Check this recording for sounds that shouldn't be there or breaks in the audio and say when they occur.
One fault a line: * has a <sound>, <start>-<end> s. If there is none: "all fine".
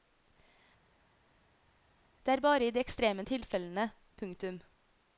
all fine